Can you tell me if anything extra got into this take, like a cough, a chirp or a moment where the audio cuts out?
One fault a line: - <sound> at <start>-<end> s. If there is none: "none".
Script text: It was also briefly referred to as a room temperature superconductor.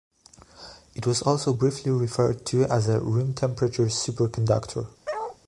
- bark at 5.1-5.4 s